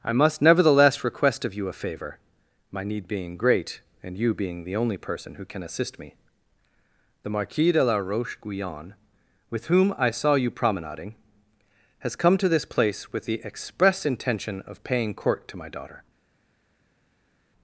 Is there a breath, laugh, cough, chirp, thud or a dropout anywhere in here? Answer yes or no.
no